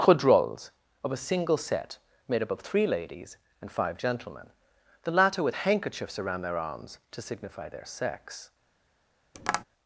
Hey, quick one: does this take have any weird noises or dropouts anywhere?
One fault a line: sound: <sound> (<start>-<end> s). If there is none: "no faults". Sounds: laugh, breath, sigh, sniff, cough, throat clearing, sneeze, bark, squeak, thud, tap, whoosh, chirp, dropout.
sound: tap (9.3-9.6 s)